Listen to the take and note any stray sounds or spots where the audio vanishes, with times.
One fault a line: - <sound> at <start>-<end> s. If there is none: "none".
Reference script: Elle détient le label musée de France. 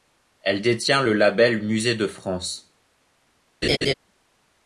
- laugh at 3.6-3.9 s